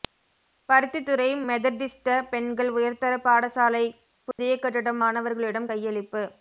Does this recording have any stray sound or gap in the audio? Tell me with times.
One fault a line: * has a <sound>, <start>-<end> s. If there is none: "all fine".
* has a dropout, 4.3-4.4 s